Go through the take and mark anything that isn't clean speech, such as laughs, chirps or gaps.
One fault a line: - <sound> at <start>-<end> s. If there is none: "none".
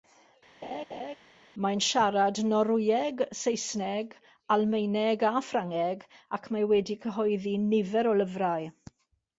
- laugh at 0.6-1.2 s